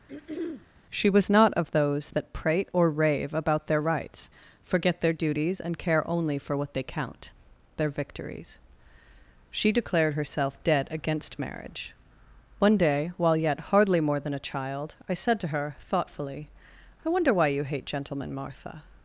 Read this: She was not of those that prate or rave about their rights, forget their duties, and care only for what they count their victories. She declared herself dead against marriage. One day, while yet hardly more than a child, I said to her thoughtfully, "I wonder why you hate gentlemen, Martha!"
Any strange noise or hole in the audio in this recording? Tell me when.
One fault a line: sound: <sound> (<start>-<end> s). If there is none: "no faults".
sound: throat clearing (0.1-0.7 s)